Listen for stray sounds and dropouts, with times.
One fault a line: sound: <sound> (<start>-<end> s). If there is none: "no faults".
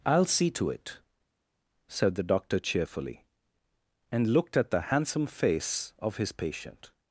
no faults